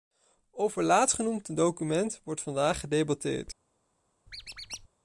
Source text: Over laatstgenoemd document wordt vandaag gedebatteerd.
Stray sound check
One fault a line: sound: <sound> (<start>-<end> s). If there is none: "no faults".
sound: squeak (4.3-4.9 s)